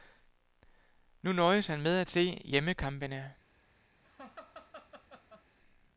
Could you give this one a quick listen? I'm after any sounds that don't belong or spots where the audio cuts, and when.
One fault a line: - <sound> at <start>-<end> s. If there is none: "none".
- laugh at 4.0-5.5 s